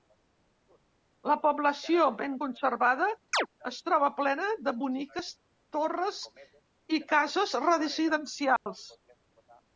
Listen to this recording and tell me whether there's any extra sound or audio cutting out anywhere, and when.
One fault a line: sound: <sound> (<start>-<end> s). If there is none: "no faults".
sound: chirp (3.3-3.5 s)
sound: dropout (8.6-8.7 s)